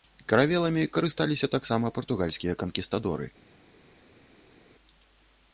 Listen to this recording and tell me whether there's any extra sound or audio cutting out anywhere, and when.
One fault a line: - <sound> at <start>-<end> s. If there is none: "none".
none